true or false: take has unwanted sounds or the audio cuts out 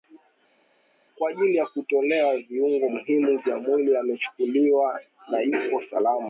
false